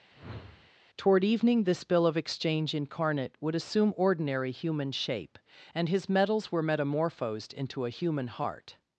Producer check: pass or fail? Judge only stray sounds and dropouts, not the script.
fail